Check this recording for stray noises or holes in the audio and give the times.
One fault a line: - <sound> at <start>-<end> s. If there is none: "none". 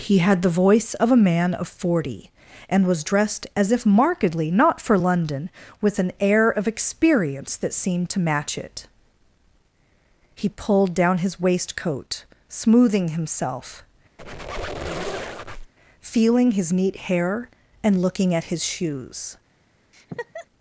- squeak at 14.2-15.7 s
- laugh at 19.9-20.5 s